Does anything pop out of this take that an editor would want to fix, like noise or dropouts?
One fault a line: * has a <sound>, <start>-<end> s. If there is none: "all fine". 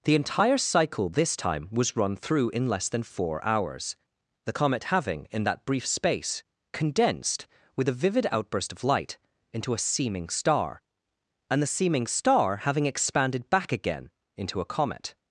all fine